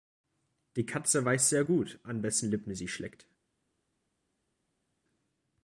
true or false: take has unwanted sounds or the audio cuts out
false